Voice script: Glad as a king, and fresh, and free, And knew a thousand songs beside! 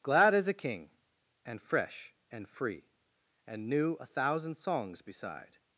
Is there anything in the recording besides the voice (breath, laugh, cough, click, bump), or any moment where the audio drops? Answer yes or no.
no